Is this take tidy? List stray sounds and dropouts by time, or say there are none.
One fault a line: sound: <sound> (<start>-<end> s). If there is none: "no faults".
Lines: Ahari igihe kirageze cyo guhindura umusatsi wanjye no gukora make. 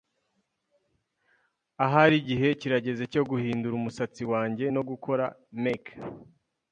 no faults